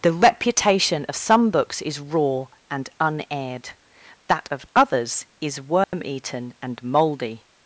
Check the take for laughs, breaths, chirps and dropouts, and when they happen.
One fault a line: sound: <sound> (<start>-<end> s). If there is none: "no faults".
sound: dropout (5.8-5.9 s)